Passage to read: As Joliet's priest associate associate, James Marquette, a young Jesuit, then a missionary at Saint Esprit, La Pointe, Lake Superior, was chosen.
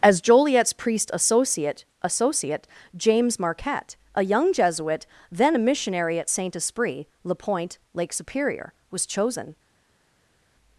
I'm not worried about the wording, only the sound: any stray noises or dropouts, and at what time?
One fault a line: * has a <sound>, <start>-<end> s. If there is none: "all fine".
all fine